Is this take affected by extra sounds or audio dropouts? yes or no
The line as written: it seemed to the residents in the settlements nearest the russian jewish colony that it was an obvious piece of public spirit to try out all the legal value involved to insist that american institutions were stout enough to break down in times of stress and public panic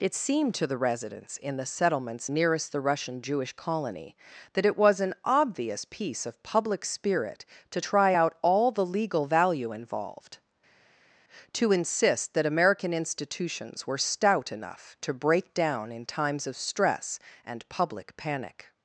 no